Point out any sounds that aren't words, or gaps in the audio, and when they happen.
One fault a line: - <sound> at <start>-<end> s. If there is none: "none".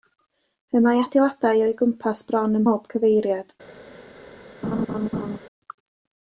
- laugh at 4.6-5.4 s